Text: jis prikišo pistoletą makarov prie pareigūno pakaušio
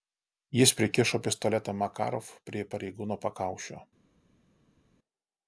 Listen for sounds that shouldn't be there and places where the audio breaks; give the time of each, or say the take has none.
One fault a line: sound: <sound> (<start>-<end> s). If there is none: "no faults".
no faults